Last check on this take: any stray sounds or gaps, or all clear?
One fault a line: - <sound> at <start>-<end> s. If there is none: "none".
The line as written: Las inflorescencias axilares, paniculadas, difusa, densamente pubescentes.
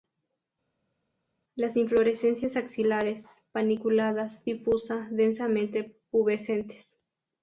none